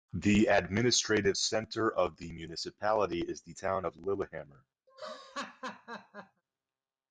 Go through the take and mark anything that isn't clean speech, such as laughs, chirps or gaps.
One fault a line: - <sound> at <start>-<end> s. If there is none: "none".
- laugh at 4.9-6.4 s